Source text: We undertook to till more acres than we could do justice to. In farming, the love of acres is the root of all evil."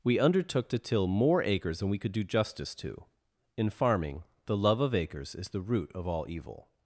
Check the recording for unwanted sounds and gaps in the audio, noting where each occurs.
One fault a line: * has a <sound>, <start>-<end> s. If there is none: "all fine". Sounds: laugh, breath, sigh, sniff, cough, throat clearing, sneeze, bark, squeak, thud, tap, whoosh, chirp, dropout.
all fine